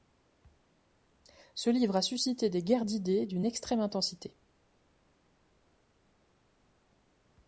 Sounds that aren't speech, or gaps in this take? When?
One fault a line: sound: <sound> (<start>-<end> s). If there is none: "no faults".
no faults